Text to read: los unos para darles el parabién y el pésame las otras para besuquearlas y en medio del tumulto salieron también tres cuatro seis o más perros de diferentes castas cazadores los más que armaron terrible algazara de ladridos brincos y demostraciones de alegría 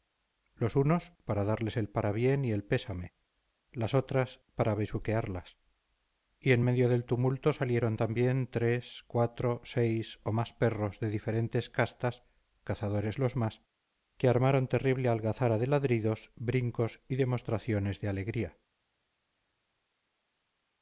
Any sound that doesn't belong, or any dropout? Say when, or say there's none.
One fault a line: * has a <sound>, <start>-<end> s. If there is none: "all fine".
all fine